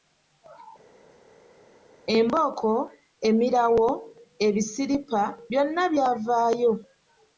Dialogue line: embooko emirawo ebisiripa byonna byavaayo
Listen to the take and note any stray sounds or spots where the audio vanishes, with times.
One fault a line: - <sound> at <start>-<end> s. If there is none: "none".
none